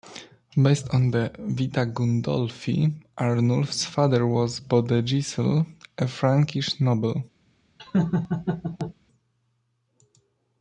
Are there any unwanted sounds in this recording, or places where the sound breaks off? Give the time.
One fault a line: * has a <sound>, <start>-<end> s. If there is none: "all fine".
* has a laugh, 7.8-8.9 s